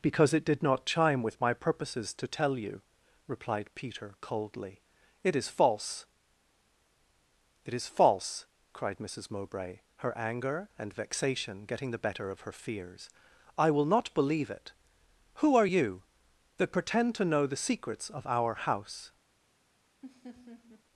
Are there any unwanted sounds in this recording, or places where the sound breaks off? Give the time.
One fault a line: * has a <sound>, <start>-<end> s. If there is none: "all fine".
* has a laugh, 20.0-20.8 s